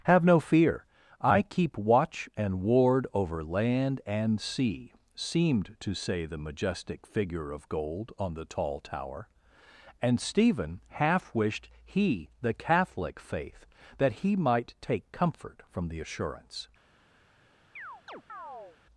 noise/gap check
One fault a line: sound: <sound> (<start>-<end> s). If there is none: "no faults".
sound: chirp (17.8-18.8 s)